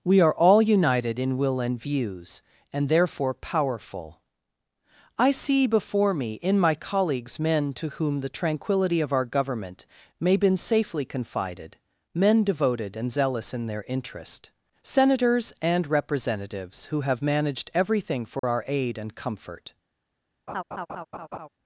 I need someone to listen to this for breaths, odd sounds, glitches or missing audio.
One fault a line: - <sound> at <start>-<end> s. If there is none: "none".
- dropout at 18.4-18.4 s
- laugh at 20.5-21.5 s